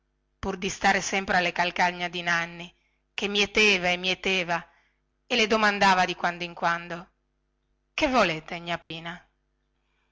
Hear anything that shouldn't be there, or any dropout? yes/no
yes